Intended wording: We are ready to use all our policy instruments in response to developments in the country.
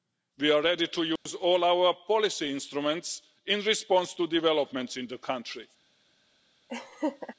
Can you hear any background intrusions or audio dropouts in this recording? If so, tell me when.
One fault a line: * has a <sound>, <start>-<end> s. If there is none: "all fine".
* has a dropout, 1.2-1.3 s
* has a laugh, 6.7-7.3 s